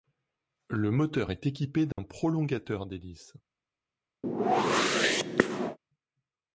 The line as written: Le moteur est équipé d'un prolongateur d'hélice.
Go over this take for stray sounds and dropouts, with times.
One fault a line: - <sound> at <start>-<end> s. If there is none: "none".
- dropout at 1.9-2.0 s
- whoosh at 4.2-5.8 s